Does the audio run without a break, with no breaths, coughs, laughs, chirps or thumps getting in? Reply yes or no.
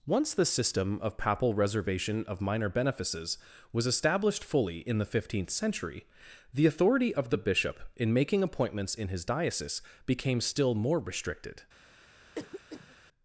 no